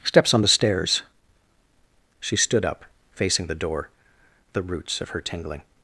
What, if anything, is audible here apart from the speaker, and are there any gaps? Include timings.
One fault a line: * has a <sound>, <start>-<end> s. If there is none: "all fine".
all fine